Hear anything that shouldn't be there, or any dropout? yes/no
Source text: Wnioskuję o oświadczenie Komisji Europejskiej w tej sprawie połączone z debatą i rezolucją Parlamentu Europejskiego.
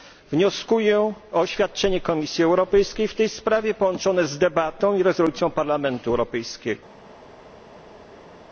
no